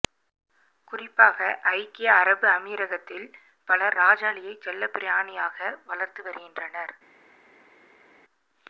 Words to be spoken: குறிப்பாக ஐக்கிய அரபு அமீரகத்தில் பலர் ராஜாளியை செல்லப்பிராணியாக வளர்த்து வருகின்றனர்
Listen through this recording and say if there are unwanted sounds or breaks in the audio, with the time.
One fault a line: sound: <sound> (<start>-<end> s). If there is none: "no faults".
no faults